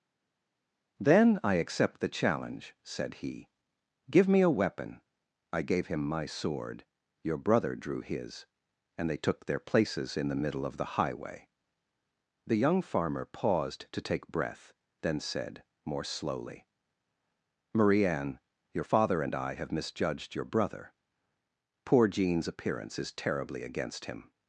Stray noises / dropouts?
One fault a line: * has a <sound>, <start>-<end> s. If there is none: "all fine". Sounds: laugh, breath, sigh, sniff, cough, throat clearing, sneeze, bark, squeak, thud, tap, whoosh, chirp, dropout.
all fine